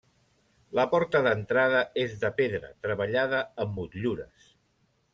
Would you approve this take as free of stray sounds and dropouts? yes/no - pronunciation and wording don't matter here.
yes